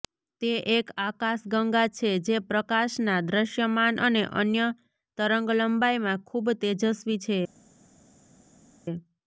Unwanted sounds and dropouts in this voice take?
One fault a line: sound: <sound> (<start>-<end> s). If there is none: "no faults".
no faults